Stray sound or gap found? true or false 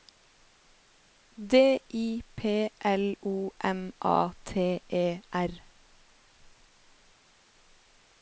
false